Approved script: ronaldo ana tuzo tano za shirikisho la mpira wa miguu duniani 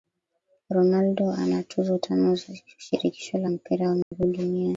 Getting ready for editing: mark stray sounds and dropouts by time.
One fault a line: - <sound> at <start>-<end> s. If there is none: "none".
- dropout at 4.0-4.1 s